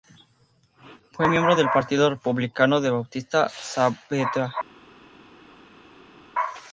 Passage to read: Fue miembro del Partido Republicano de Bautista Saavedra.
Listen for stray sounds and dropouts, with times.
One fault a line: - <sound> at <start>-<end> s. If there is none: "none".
none